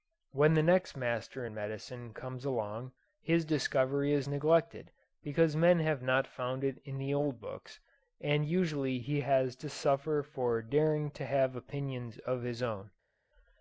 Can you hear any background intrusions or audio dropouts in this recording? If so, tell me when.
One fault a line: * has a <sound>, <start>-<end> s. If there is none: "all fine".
all fine